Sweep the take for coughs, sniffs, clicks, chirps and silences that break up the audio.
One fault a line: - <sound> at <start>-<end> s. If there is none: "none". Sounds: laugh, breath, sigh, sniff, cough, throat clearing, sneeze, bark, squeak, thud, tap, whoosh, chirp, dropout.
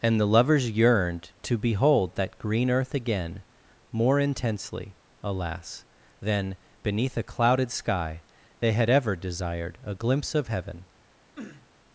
- sniff at 11.4-11.7 s